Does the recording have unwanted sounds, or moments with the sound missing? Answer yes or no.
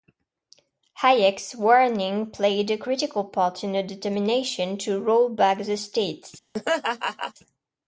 yes